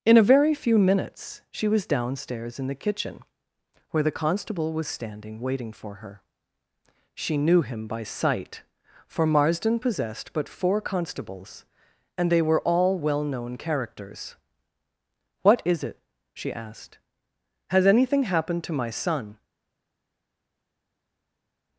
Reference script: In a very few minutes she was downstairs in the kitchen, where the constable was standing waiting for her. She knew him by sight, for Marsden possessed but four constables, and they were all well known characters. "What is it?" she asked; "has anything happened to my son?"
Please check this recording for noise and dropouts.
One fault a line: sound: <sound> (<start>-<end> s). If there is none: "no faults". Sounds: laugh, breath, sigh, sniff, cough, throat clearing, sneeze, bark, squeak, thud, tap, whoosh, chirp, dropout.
no faults